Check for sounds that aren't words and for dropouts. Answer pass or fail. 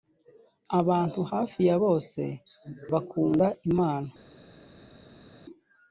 pass